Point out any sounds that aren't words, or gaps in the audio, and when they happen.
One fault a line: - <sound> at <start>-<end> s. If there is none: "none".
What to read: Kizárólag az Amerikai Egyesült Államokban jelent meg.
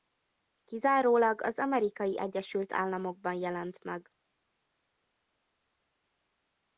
none